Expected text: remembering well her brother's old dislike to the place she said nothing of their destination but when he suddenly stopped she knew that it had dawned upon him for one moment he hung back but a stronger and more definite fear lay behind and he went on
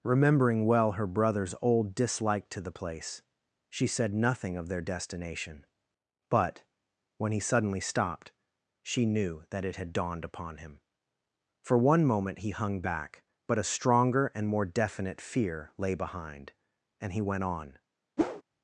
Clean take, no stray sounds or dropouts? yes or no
no